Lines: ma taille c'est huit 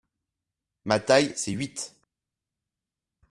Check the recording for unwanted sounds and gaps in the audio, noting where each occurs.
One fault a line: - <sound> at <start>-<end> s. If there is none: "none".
none